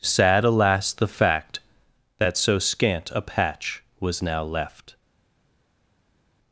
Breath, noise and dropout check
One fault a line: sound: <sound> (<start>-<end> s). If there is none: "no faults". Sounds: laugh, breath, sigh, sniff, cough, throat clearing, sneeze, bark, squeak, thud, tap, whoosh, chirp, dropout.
no faults